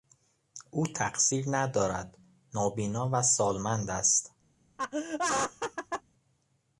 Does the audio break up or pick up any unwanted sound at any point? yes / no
yes